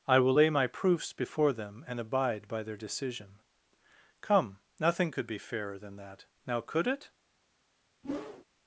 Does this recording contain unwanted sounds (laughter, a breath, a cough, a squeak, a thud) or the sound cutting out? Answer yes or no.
yes